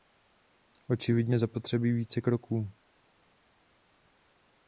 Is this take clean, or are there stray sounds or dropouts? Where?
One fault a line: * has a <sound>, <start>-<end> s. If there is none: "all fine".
all fine